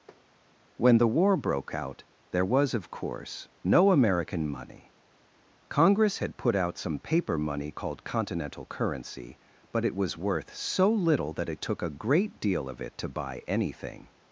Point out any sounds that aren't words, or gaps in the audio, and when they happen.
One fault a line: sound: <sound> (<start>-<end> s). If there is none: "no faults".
sound: tap (0.1-0.2 s)